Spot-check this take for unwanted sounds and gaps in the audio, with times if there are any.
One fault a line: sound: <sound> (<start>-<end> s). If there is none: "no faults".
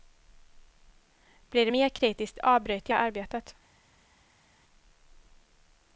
no faults